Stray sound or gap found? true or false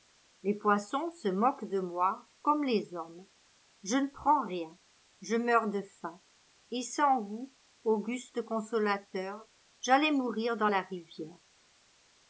false